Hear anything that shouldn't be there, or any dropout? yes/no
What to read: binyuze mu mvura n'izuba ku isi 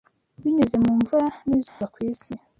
yes